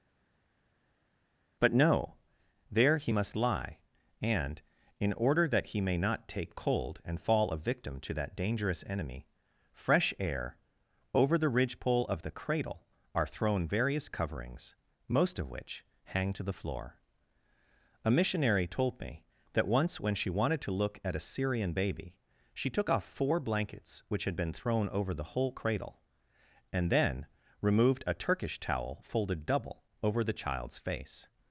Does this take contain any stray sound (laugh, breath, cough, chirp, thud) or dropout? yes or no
no